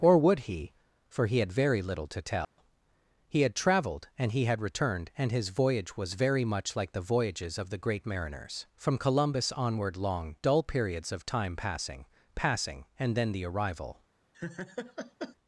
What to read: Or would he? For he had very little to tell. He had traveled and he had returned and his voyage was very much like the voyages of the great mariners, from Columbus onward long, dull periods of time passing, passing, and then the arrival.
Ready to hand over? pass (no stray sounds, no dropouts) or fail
fail